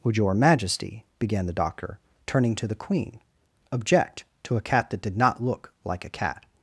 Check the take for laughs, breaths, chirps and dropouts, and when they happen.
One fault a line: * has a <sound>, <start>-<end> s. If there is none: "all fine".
all fine